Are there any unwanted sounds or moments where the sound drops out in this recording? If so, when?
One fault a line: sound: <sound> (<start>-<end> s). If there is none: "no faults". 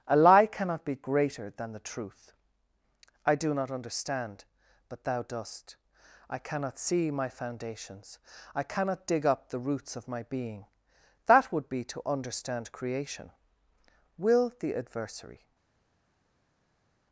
no faults